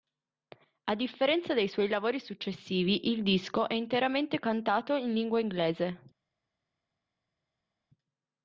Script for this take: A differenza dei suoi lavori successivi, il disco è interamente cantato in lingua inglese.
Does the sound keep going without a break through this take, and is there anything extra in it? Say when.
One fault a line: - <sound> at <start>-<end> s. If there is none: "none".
none